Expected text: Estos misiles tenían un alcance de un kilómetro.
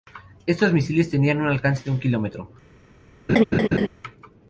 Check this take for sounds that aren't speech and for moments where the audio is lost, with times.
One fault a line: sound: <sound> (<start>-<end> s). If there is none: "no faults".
sound: laugh (3.3-3.9 s)